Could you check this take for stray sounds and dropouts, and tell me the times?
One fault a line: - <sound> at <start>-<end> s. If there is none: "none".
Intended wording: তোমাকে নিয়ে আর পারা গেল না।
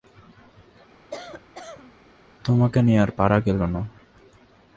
- cough at 1.1-1.9 s